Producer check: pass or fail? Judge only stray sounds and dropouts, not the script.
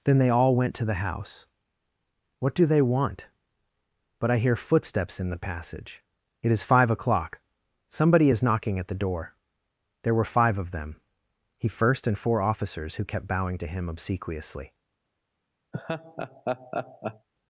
fail